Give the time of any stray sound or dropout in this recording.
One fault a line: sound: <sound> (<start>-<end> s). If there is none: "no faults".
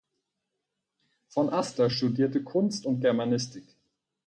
no faults